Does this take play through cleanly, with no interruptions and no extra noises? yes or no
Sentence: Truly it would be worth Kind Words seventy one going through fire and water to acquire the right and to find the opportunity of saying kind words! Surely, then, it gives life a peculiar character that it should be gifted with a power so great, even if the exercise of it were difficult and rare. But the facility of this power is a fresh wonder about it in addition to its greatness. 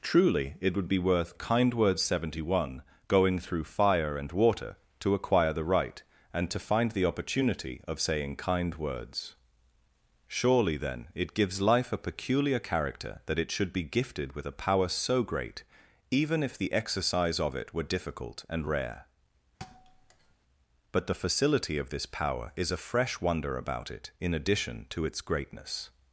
no